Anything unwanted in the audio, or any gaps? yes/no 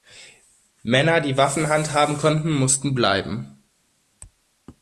no